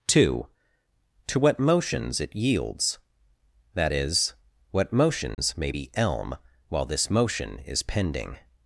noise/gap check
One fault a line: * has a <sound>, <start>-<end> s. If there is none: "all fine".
* has a dropout, 5.3-5.4 s